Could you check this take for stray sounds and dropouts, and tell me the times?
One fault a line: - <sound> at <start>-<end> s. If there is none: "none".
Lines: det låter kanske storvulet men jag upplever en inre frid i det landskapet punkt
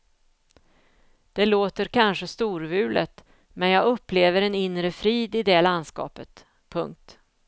none